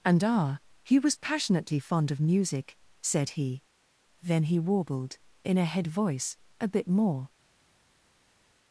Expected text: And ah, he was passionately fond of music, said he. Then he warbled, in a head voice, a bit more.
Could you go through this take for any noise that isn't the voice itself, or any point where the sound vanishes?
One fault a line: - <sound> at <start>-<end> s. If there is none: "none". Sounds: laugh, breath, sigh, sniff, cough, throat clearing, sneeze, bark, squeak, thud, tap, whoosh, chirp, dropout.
none